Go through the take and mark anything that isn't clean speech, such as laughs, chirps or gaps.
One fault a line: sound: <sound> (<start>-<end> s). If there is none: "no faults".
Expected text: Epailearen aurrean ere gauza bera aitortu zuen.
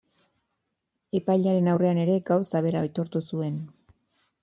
no faults